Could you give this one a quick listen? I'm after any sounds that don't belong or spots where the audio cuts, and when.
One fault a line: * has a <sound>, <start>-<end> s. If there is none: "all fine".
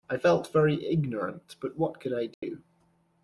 * has a dropout, 2.3-2.4 s